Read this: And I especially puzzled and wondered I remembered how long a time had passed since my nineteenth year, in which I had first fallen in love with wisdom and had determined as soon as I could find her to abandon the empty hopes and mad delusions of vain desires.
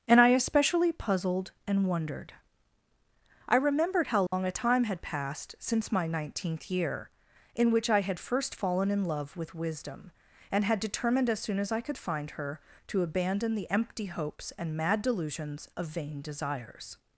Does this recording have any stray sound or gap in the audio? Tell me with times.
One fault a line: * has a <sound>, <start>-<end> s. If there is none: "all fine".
* has a dropout, 4.3-4.3 s